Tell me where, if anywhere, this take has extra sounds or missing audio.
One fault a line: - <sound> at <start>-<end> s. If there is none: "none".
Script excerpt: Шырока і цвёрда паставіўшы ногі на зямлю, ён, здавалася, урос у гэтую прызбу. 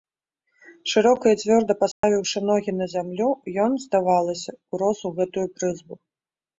- dropout at 1.9-2.0 s